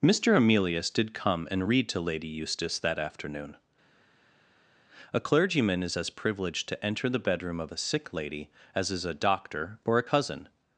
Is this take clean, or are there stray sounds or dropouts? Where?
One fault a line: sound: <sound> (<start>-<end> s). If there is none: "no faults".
no faults